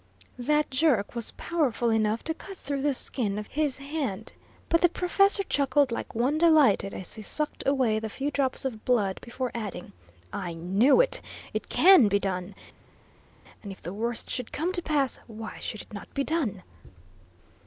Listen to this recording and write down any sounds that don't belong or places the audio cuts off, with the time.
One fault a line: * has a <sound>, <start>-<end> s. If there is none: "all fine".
all fine